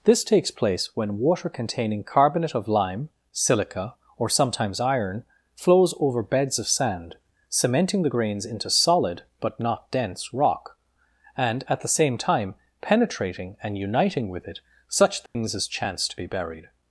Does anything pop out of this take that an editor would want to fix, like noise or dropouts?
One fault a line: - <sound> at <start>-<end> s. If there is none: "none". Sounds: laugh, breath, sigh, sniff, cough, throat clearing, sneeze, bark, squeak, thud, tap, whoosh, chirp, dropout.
- dropout at 15.3-15.4 s